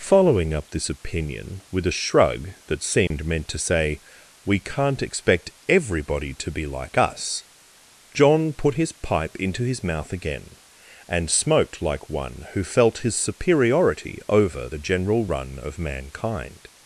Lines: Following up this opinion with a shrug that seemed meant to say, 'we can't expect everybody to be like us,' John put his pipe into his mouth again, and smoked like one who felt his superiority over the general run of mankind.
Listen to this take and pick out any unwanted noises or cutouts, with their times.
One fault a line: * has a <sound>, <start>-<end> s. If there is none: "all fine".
* has a dropout, 3.1-3.1 s